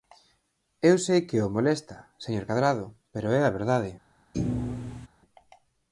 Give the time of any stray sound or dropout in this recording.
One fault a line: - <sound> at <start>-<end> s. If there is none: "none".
- thud at 4.3-5.1 s